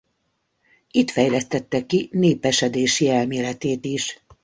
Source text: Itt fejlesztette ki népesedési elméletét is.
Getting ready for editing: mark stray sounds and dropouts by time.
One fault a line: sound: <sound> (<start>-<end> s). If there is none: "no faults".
no faults